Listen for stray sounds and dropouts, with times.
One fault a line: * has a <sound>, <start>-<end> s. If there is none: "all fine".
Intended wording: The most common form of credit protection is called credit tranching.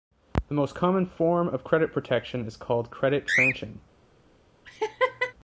* has a laugh, 4.7-5.3 s